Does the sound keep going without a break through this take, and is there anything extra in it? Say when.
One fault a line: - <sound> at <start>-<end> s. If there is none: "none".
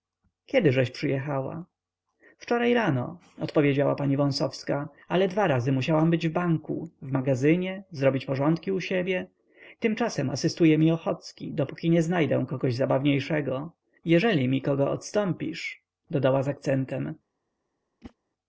- whoosh at 18.0-18.1 s